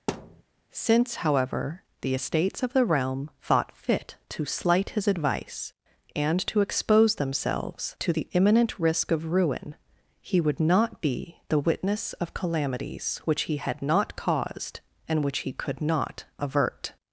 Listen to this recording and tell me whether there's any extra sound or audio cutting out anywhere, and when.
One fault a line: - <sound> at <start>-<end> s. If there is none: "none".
- thud at 0.1-0.4 s